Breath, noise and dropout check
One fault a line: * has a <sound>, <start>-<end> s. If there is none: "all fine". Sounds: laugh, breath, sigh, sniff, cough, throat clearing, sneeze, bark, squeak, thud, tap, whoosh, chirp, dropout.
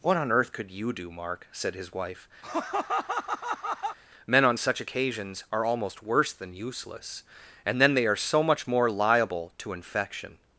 * has a laugh, 2.4-4.0 s